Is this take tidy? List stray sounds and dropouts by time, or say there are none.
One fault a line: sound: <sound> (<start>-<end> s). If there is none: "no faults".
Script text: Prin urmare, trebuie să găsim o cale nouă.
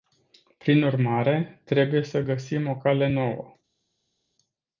no faults